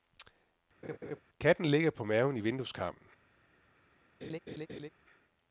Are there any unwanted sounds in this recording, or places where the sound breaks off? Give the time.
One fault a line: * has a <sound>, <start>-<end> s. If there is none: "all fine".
* has a laugh, 0.8-1.2 s
* has a laugh, 4.2-4.9 s